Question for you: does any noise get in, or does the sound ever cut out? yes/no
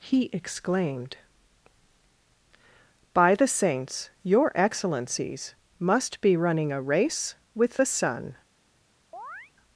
yes